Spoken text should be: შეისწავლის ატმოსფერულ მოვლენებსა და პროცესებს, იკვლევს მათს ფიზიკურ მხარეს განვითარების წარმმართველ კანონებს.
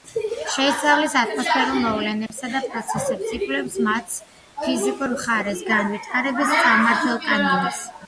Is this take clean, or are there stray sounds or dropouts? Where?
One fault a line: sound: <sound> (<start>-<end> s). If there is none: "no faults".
sound: dropout (2.3-2.3 s)